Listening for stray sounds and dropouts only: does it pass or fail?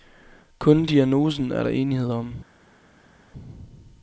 pass